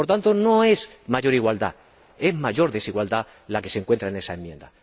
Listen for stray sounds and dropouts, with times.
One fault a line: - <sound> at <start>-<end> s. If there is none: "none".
none